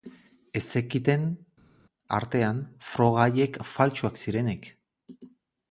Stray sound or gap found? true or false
false